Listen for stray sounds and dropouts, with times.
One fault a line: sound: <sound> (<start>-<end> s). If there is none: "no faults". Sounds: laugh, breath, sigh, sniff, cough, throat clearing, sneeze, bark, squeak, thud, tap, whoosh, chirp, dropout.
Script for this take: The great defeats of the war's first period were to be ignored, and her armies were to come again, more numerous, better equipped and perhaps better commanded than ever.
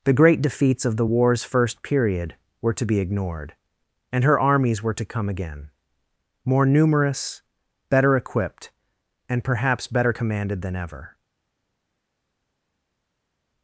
no faults